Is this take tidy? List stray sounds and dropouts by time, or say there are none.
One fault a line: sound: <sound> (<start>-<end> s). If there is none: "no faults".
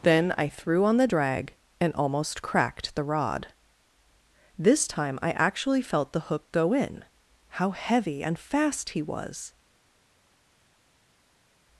no faults